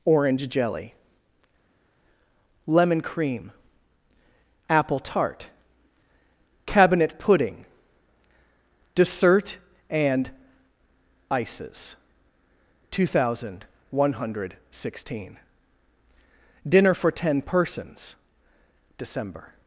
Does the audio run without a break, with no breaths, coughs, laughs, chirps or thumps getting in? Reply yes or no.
yes